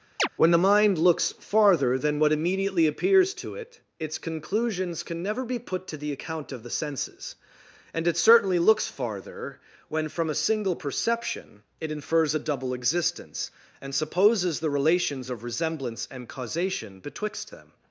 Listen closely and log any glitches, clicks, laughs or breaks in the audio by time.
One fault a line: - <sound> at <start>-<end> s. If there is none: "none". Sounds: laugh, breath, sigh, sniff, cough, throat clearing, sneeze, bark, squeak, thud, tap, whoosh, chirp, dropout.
- chirp at 0.2-0.3 s